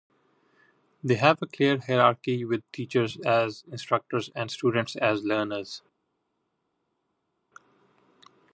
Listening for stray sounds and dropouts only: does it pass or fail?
pass